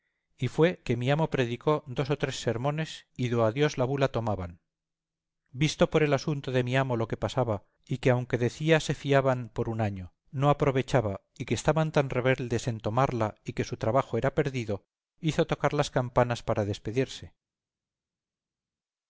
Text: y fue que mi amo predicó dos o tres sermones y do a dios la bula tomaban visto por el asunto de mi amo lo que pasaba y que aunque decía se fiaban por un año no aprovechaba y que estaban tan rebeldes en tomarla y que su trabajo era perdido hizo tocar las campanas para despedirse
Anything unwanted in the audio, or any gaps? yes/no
no